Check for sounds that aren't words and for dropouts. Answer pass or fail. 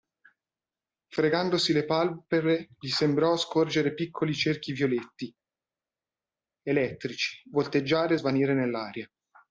pass